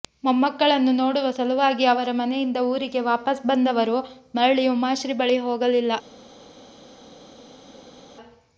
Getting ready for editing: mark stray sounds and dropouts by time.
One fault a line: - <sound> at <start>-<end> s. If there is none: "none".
none